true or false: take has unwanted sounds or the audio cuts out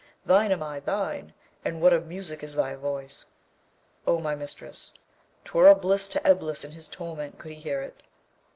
false